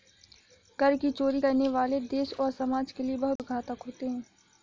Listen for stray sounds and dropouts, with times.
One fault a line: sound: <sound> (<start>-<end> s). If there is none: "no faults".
sound: dropout (3.4-3.4 s)